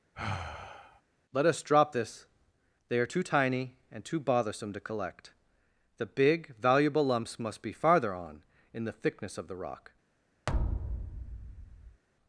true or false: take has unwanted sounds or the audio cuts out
true